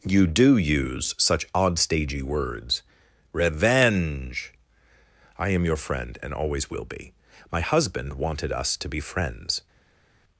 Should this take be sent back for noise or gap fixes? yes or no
no